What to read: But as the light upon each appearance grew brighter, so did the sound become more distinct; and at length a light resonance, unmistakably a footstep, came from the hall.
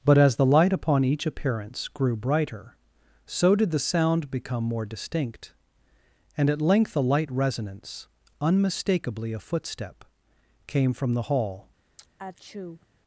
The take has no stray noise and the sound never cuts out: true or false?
false